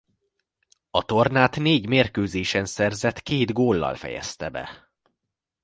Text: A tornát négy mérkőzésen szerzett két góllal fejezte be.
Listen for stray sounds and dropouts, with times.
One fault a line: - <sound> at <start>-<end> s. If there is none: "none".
none